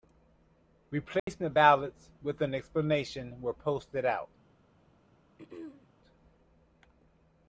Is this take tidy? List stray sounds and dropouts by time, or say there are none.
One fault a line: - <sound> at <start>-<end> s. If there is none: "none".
- dropout at 1.2-1.3 s
- throat clearing at 5.4-5.9 s